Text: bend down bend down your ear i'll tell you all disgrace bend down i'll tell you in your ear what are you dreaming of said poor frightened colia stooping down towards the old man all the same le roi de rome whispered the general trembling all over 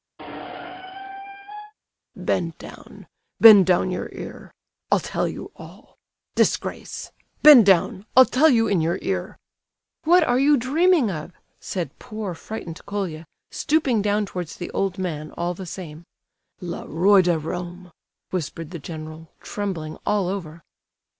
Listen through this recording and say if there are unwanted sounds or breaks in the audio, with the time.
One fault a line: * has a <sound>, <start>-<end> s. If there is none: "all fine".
* has a squeak, 0.2-1.7 s